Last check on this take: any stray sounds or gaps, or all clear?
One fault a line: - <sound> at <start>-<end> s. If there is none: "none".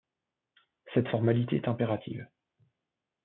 none